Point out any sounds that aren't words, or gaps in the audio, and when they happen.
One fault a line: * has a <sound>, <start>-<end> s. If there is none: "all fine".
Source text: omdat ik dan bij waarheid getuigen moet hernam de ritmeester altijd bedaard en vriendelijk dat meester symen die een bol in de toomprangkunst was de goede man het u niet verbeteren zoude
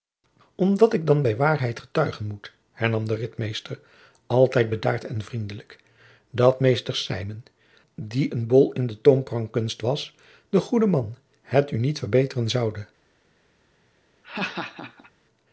* has a laugh, 14.2-15.1 s